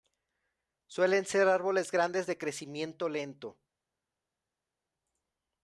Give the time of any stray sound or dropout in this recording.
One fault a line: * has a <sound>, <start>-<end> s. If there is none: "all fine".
all fine